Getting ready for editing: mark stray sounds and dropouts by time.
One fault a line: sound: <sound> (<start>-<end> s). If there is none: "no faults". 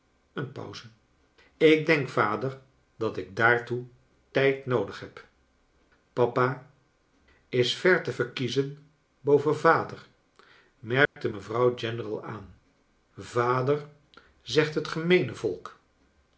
sound: dropout (11.1-11.2 s)